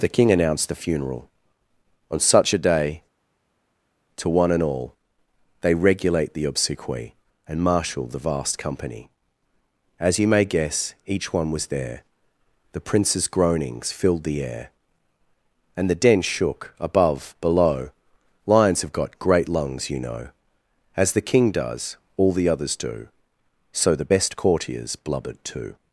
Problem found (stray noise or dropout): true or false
false